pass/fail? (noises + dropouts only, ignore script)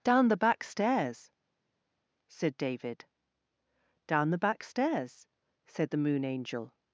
pass